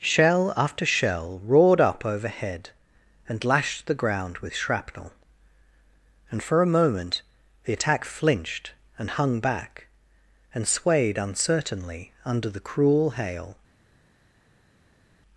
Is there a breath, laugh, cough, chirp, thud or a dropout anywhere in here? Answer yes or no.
no